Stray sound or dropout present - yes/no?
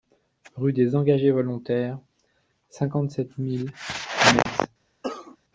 yes